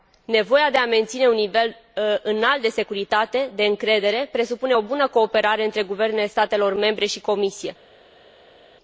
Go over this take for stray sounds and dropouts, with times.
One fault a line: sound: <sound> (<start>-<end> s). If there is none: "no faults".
no faults